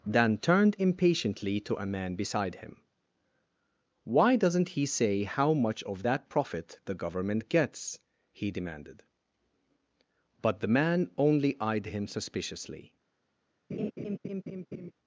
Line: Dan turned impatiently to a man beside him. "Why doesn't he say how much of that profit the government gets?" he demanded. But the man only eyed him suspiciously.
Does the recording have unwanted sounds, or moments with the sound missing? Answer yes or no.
yes